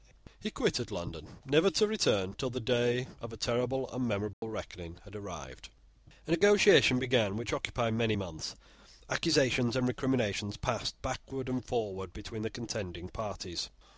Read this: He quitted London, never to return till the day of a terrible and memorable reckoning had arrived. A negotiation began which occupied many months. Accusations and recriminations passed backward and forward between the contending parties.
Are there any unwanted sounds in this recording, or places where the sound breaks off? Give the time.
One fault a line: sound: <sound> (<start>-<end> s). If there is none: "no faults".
sound: dropout (4.3-4.4 s)